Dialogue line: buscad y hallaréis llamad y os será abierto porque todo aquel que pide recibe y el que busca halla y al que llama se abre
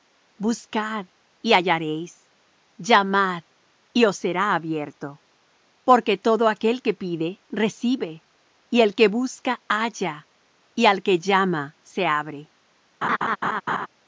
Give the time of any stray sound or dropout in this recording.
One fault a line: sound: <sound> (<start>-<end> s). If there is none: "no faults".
sound: laugh (13.0-13.9 s)